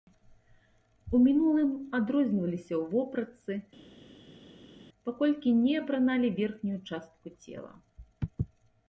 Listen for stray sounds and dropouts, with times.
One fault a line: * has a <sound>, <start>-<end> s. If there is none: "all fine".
all fine